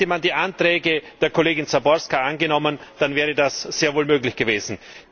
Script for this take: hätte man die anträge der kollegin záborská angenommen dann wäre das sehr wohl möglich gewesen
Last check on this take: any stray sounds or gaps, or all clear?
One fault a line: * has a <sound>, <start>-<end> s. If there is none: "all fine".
all fine